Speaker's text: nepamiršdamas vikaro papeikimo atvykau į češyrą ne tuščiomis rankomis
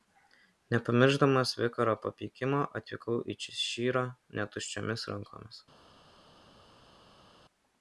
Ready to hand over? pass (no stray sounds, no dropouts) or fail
pass